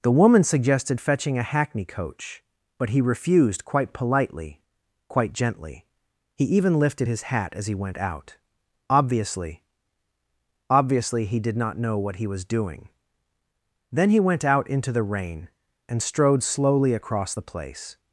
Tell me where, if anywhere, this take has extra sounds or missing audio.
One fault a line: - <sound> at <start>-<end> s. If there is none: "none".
none